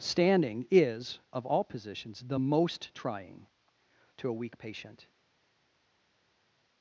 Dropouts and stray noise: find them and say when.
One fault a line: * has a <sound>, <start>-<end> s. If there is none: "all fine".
all fine